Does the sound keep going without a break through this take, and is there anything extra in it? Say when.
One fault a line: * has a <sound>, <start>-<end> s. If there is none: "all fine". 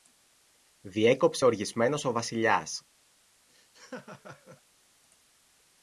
* has a laugh, 3.5-4.6 s